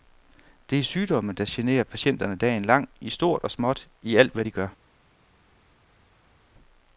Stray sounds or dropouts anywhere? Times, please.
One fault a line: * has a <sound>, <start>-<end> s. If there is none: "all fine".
all fine